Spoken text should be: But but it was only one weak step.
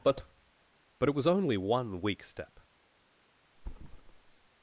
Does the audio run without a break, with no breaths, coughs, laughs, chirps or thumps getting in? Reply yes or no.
no